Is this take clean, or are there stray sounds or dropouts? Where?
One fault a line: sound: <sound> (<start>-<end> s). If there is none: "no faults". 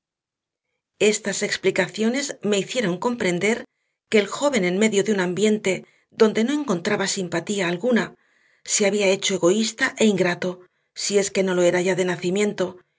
no faults